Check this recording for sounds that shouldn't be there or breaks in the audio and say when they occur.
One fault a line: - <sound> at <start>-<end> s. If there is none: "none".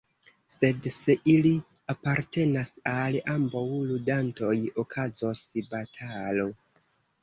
none